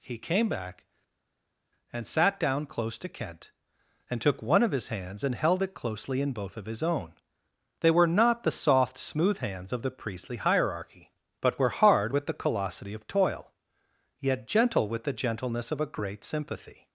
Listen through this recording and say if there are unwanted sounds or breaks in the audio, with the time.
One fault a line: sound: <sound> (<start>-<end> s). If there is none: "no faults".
no faults